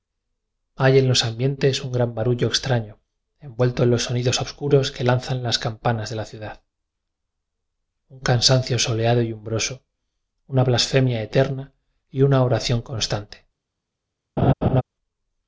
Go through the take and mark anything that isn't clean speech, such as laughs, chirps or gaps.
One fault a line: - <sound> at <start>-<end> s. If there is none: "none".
- laugh at 14.4-14.8 s